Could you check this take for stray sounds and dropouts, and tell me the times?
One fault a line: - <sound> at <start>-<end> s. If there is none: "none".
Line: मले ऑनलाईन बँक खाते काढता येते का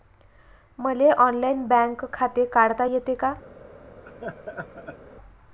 - laugh at 4.0-5.0 s